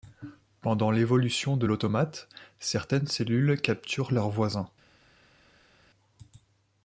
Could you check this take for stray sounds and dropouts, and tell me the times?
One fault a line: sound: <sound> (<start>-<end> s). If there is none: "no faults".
no faults